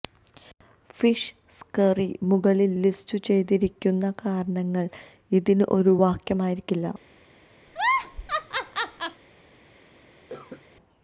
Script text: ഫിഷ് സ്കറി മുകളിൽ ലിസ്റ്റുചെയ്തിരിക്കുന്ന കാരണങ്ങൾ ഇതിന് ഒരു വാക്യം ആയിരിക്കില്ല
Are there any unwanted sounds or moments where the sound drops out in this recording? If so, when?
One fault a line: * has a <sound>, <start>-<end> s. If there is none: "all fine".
* has a laugh, 7.7-9.2 s
* has a cough, 10.3-10.6 s